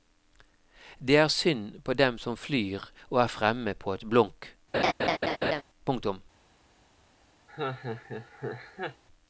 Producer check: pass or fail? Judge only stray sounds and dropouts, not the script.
fail